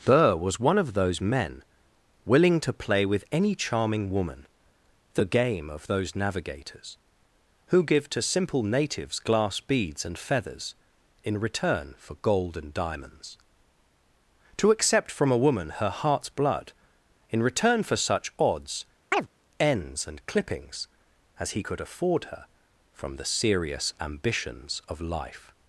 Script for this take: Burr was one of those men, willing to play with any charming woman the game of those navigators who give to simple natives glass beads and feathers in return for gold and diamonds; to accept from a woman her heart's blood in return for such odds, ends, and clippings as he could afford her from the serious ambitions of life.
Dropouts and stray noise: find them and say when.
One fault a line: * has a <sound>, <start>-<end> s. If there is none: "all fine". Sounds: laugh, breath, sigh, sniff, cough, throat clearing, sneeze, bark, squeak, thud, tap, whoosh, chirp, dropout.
* has a chirp, 19.1-19.3 s